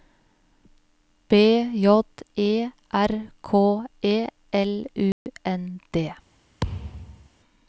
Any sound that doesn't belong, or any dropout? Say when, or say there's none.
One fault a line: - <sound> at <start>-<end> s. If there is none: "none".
- dropout at 5.1-5.3 s
- thud at 6.6-7.3 s